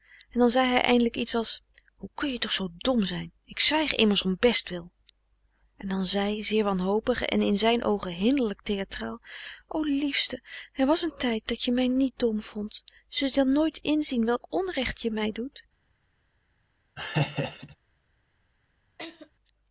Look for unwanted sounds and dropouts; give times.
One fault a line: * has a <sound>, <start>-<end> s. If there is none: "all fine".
* has a laugh, 17.0-17.8 s
* has a laugh, 19.0-19.3 s